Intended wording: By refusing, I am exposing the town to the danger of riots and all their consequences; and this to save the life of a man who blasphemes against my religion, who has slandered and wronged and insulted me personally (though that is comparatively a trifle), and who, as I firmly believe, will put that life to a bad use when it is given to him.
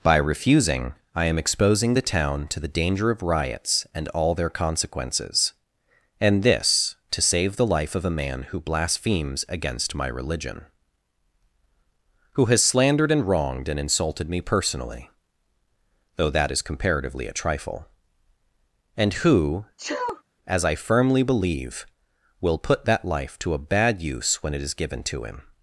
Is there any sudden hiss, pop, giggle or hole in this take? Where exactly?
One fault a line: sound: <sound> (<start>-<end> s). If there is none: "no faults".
sound: sneeze (19.8-20.2 s)